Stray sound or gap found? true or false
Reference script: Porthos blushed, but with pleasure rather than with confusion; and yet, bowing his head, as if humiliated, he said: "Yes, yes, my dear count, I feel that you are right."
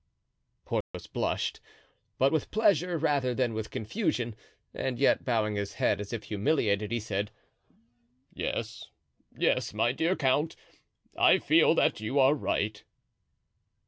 true